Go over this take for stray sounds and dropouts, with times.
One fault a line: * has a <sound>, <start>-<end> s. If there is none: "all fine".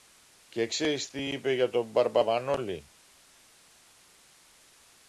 all fine